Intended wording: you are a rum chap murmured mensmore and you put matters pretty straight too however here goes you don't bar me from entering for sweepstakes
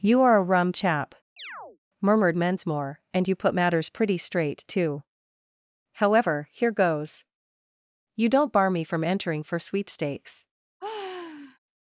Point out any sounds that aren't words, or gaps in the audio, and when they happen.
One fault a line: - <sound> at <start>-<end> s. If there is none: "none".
- chirp at 1.4-1.8 s
- sigh at 10.8-11.6 s